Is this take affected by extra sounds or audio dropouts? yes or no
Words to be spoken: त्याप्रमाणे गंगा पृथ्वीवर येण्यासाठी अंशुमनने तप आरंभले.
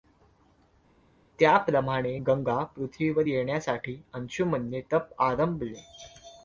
no